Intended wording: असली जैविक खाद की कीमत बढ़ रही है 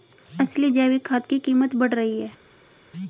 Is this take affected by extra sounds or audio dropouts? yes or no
no